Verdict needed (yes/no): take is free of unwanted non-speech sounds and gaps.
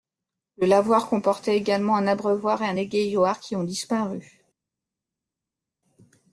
yes